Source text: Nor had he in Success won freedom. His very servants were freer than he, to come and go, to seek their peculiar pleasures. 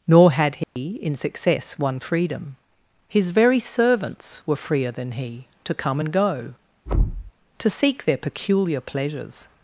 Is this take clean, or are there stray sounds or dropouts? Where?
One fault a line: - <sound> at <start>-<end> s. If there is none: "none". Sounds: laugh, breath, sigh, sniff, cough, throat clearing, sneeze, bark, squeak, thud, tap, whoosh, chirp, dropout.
- dropout at 0.6-0.8 s
- thud at 6.9-7.3 s